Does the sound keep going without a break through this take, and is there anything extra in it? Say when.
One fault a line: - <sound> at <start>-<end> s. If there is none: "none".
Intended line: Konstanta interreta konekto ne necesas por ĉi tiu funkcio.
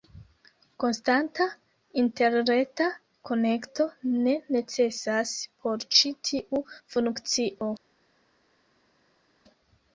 none